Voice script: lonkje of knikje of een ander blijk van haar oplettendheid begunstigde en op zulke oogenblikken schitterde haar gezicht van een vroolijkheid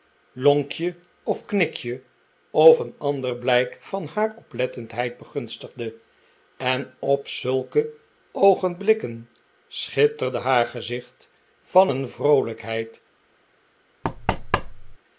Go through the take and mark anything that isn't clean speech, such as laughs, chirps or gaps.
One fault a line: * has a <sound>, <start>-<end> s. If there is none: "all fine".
* has a thud, 14.0-15.0 s